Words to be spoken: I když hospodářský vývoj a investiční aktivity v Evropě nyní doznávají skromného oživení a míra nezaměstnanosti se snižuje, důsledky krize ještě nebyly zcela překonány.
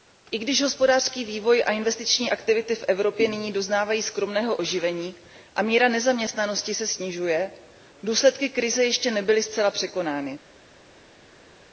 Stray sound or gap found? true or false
false